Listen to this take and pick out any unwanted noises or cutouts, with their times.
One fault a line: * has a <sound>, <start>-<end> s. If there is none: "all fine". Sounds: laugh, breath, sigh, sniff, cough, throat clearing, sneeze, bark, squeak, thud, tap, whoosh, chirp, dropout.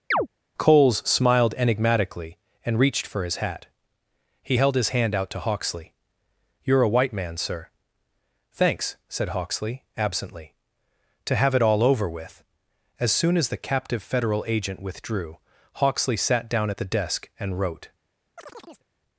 * has a chirp, 0.1-0.3 s
* has a chirp, 18.4-18.9 s